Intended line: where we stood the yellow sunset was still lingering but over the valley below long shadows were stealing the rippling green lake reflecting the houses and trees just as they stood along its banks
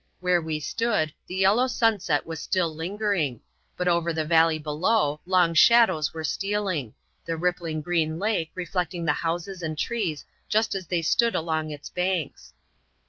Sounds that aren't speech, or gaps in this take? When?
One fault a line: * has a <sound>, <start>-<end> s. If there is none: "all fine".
all fine